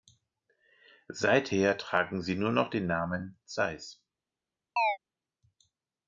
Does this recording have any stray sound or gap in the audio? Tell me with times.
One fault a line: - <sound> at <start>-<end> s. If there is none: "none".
- chirp at 4.8-5.0 s